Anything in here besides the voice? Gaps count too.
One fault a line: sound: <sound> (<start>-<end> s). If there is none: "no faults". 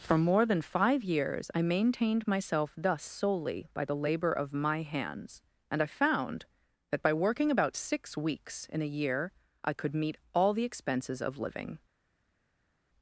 no faults